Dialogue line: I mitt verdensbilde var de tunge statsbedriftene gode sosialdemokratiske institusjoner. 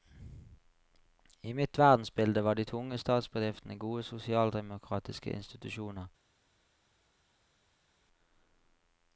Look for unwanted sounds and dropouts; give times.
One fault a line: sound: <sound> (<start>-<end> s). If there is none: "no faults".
no faults